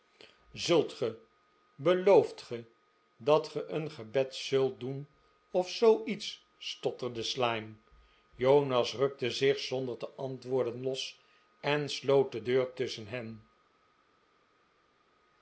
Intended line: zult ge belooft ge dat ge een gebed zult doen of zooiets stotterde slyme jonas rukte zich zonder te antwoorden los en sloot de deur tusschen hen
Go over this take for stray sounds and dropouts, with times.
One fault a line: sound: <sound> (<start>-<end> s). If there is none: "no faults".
no faults